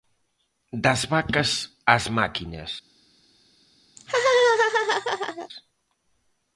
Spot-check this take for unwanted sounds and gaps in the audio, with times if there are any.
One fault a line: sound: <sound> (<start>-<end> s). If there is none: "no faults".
sound: laugh (4.0-5.5 s)